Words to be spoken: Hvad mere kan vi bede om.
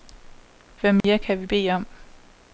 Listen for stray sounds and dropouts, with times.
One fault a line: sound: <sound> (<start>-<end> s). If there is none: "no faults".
sound: dropout (1.0-1.0 s)